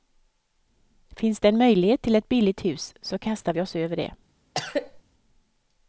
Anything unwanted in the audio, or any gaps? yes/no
yes